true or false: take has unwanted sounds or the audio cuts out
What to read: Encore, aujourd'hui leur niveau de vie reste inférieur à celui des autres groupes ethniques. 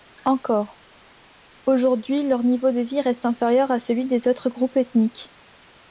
false